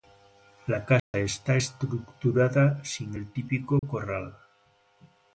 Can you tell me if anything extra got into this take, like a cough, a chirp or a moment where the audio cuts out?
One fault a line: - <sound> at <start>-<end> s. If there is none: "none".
- dropout at 1.0-1.1 s
- dropout at 3.8-3.8 s